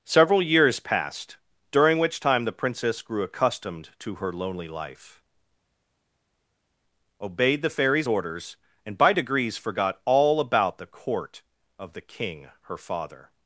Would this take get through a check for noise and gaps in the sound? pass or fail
pass